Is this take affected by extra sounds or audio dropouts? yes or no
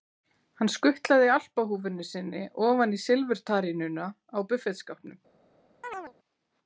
yes